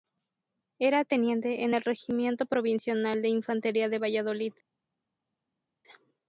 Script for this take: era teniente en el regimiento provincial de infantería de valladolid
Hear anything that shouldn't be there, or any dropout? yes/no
no